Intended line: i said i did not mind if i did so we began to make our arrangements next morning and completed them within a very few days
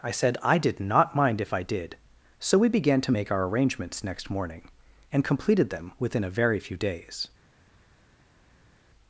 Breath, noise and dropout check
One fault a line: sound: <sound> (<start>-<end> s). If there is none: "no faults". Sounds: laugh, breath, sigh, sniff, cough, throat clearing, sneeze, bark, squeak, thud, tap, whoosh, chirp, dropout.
no faults